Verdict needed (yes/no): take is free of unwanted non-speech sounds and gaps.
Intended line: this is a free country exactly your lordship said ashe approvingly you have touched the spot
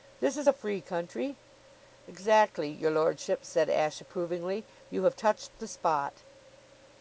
yes